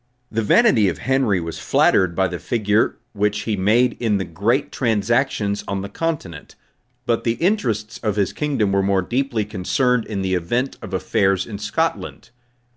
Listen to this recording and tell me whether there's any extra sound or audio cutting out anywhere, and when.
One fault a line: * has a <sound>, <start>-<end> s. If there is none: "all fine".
all fine